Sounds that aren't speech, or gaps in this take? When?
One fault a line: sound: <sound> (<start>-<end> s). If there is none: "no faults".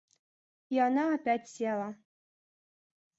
no faults